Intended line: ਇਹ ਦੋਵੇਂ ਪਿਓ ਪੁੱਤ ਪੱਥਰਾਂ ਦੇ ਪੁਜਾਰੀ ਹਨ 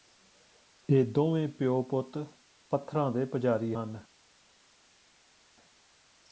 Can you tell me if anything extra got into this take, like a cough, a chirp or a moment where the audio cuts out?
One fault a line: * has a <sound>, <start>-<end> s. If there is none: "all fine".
all fine